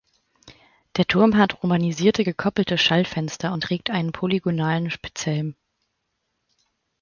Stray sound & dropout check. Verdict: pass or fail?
pass